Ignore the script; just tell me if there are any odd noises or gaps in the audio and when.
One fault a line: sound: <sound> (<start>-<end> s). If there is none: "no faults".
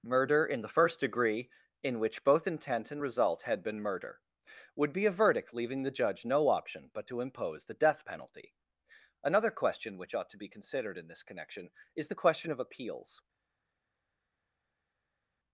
no faults